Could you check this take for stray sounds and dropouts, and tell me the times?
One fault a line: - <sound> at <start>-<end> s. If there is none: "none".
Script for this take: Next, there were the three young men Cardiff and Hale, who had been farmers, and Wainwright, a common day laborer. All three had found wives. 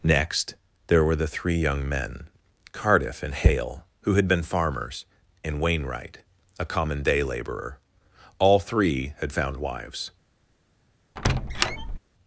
- squeak at 11.2-12.0 s